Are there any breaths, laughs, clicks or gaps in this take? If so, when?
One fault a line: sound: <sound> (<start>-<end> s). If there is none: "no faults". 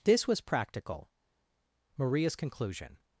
no faults